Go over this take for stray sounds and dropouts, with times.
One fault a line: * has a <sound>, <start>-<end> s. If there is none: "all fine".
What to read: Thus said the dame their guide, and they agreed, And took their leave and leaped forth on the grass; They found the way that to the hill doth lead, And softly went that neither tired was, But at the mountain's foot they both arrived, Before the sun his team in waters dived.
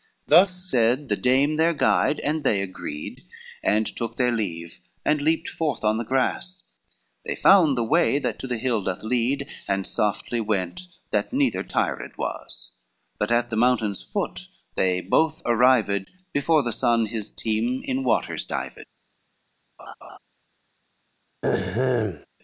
* has a laugh, 19.8-20.2 s
* has a throat clearing, 21.4-22.3 s